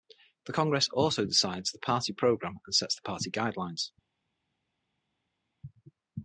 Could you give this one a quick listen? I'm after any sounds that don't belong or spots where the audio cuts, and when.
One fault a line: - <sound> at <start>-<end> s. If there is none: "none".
none